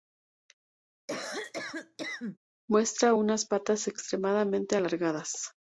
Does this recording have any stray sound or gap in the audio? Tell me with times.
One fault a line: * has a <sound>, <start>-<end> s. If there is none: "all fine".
* has a cough, 1.1-2.4 s